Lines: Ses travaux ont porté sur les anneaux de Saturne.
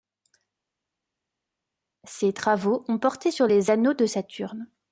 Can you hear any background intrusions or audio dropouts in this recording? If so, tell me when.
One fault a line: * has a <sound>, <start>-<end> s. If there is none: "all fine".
all fine